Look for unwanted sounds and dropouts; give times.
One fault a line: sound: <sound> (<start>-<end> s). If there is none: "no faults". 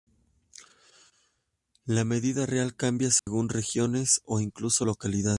sound: dropout (3.2-3.3 s)